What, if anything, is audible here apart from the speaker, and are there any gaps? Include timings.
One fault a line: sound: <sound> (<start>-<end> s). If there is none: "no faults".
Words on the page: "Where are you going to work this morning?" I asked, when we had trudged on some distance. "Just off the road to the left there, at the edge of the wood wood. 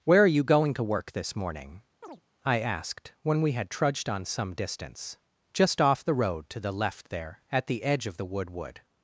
sound: chirp (2.0-2.2 s)